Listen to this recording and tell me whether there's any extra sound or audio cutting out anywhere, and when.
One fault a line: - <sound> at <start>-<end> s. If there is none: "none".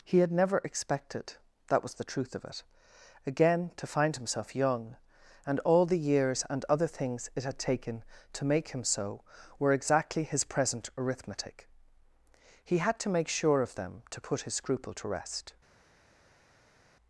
none